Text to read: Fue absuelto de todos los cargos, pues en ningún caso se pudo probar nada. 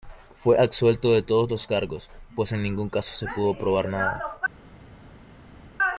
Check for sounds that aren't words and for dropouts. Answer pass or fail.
pass